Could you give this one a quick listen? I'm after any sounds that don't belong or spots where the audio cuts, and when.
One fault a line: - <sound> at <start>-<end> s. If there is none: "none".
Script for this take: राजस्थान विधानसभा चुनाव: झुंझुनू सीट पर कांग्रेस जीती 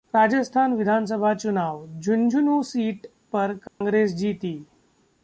- dropout at 3.7-3.8 s